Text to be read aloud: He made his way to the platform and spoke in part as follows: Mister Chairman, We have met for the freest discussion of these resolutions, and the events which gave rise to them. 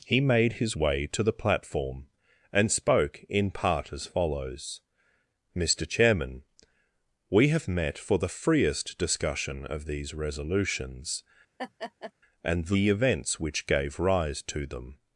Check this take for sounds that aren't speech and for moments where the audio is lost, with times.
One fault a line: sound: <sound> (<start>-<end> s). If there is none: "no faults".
sound: laugh (11.6-12.1 s)